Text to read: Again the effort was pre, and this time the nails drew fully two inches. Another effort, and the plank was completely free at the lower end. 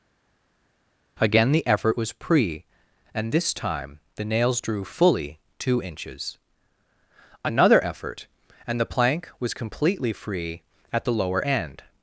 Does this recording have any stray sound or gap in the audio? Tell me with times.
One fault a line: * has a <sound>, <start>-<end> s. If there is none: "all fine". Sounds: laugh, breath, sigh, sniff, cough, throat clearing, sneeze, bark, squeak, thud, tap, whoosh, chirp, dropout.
all fine